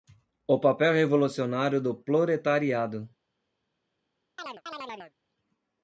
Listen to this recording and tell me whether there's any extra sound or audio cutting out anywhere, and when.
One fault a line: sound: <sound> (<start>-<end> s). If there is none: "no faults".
sound: chirp (4.4-5.1 s)